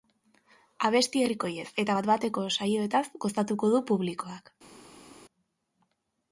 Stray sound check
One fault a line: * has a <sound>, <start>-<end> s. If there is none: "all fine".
all fine